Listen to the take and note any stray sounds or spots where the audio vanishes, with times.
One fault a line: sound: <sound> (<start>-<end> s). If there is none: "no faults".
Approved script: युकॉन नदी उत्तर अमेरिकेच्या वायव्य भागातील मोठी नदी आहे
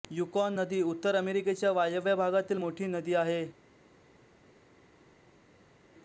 no faults